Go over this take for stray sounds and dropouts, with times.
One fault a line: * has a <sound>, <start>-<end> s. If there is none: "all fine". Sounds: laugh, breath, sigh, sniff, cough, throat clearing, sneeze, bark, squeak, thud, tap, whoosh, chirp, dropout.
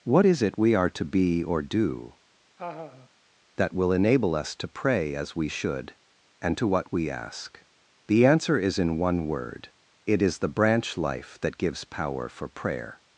* has a laugh, 2.6-3.1 s